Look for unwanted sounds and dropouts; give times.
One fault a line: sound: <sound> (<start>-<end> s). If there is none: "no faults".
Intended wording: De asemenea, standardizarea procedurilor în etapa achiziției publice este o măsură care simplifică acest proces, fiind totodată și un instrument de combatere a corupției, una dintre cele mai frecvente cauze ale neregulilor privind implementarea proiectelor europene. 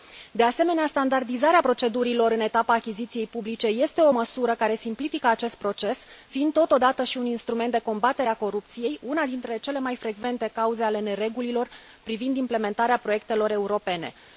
no faults